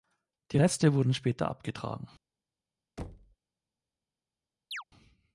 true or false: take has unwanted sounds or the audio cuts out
true